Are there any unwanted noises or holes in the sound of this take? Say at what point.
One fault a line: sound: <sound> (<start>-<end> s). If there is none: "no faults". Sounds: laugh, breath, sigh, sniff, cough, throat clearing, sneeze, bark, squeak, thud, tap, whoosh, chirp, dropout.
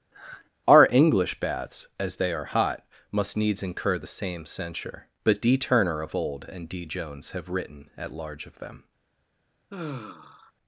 sound: sigh (0.1-0.5 s)
sound: sigh (9.7-10.5 s)